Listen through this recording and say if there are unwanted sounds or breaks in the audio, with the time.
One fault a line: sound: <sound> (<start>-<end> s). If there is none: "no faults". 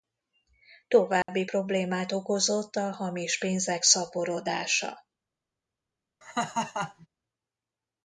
sound: dropout (1.2-1.3 s)
sound: laugh (6.2-7.1 s)